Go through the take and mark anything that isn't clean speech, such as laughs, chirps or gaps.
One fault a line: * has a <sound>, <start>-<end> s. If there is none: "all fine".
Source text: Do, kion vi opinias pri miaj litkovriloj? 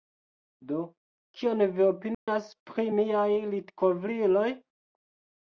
* has a dropout, 2.1-2.3 s